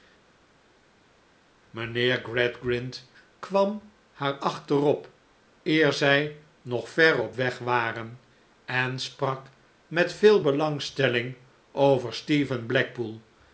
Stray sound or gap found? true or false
false